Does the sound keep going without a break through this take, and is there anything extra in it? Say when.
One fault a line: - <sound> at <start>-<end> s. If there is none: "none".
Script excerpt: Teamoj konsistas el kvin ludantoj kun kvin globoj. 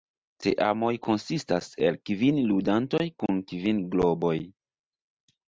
none